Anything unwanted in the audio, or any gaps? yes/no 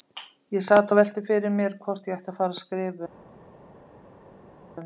no